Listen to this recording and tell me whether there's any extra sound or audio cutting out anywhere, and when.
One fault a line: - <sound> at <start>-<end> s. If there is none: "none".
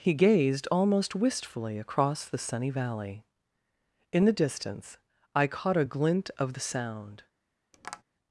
- tap at 7.7-8.0 s